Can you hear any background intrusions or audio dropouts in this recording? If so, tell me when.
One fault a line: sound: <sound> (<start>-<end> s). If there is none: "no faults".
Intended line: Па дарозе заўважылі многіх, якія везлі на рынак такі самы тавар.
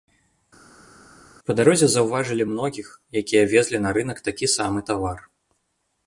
no faults